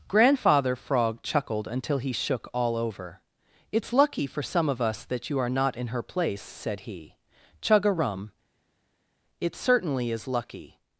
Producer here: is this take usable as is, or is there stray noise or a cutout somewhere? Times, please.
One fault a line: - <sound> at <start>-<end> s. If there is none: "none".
none